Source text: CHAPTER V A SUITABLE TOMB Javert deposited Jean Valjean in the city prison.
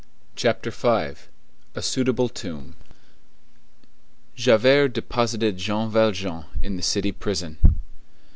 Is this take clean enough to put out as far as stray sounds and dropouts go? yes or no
yes